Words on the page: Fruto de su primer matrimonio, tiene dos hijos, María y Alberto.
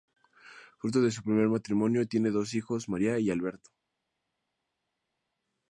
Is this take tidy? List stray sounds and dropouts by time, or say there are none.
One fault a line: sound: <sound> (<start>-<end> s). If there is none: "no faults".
no faults